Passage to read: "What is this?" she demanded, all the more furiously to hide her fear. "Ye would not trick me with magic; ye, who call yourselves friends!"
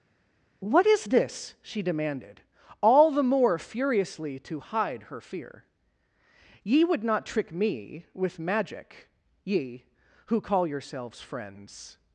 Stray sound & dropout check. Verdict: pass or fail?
pass